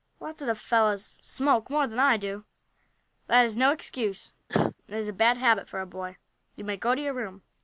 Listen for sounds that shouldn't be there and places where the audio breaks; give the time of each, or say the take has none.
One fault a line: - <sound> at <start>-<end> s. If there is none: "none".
- cough at 4.5-4.8 s